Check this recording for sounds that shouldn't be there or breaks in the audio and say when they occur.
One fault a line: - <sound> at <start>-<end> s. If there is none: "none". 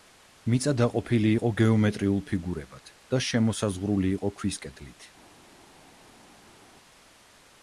none